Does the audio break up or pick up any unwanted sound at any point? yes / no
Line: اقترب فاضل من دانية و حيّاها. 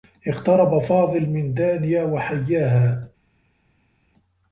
no